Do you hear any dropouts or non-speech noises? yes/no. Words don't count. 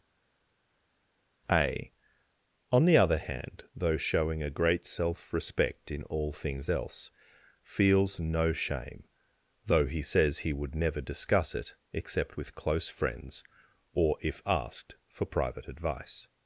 no